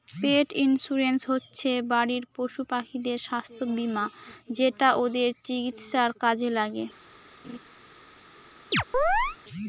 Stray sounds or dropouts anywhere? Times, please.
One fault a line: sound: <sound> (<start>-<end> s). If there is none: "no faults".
sound: laugh (7.4-7.6 s)
sound: chirp (8.7-9.4 s)